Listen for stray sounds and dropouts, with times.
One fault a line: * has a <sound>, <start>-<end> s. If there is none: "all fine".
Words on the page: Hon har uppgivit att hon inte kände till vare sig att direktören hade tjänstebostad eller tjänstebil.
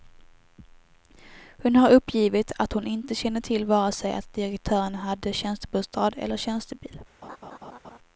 * has a laugh, 7.2-8.0 s